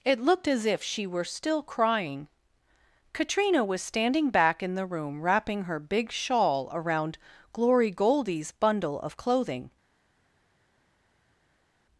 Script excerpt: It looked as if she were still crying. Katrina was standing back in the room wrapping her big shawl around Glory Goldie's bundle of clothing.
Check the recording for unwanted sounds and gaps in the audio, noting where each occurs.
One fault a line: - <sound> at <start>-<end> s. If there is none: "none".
none